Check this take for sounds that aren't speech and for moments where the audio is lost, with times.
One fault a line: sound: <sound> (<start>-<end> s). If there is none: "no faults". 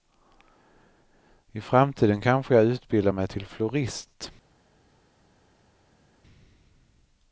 no faults